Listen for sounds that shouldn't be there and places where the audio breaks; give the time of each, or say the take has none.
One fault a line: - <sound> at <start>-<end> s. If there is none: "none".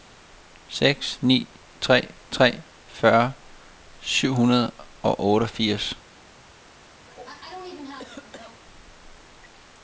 - cough at 7.1-8.6 s